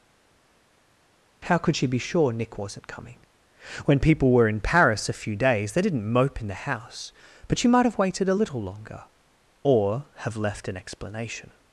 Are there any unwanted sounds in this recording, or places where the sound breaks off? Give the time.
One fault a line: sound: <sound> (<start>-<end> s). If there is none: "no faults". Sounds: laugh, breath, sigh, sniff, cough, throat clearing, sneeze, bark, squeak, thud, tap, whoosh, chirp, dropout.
no faults